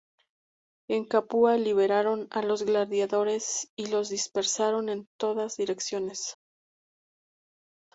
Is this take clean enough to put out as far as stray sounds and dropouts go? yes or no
yes